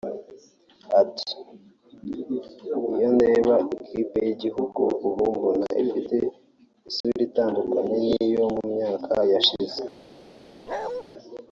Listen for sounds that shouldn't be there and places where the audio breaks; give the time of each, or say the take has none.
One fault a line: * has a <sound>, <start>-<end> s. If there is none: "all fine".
* has a dropout, 7.0-7.0 s
* has a bark, 10.7-11.0 s